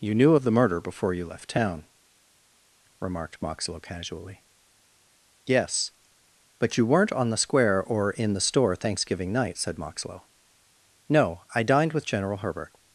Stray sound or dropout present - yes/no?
no